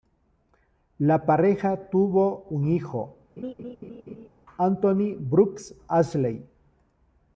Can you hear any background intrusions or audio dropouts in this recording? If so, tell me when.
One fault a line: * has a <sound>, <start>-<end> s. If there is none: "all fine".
* has a laugh, 3.4-4.3 s